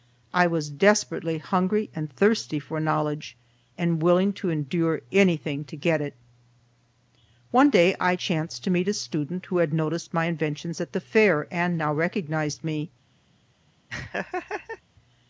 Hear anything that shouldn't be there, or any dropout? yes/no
yes